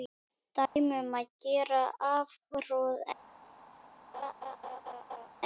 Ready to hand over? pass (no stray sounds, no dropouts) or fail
fail